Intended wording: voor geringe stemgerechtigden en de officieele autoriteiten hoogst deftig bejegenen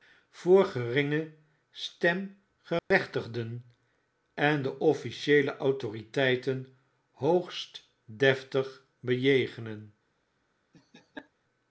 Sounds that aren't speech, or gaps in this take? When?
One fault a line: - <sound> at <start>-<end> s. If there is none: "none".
- dropout at 2.8-2.9 s
- laugh at 10.7-11.3 s